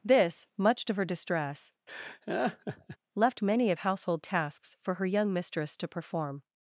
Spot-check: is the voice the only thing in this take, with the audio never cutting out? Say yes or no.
no